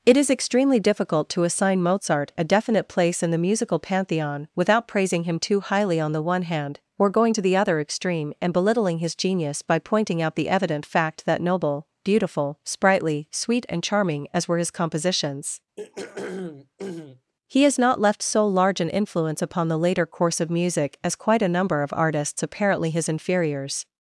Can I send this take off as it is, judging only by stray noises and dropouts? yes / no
no